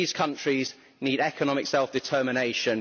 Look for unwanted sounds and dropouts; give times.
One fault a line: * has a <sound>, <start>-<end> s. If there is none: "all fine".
all fine